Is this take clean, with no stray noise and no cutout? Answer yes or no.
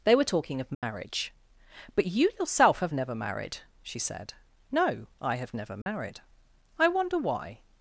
no